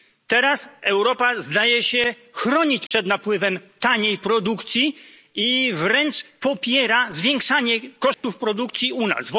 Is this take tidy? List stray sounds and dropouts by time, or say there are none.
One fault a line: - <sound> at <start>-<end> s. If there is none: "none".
- dropout at 2.9-2.9 s
- dropout at 8.1-8.2 s